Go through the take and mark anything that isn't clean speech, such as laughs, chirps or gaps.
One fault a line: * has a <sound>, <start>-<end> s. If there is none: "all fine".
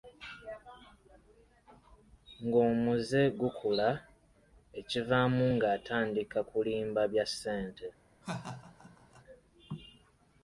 * has a laugh, 8.2-9.2 s